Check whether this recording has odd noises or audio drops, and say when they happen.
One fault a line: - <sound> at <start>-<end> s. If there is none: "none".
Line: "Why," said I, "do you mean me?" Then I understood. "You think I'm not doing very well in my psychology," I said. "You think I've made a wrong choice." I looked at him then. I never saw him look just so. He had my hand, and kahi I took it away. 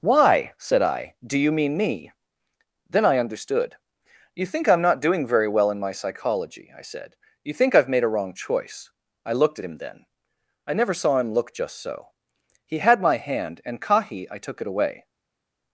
none